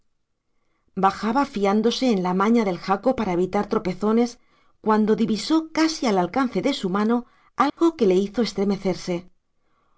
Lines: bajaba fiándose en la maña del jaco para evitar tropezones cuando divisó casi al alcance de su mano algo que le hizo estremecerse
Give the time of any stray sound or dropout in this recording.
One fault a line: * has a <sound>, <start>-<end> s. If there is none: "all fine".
* has a dropout, 7.7-7.8 s